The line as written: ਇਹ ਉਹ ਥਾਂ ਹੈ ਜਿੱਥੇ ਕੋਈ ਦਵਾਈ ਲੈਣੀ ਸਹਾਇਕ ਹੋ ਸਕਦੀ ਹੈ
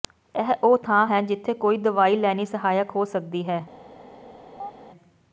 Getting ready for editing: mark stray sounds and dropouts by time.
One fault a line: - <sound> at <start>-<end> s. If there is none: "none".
- chirp at 4.6-4.7 s